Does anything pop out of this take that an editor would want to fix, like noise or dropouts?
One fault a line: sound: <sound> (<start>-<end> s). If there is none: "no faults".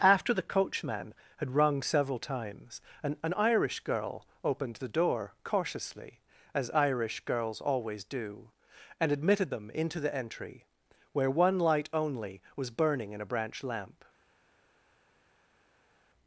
no faults